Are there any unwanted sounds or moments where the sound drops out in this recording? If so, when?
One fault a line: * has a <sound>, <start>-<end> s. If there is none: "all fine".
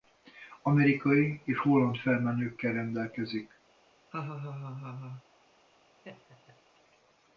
* has a laugh, 4.1-5.2 s
* has a laugh, 6.0-6.6 s